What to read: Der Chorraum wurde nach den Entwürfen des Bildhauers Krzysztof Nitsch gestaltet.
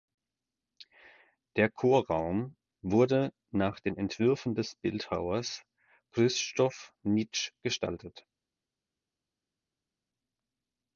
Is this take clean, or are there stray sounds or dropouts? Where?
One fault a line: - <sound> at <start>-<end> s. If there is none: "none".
none